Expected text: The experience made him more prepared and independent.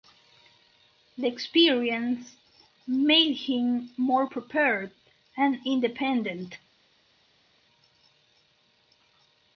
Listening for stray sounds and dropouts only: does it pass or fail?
pass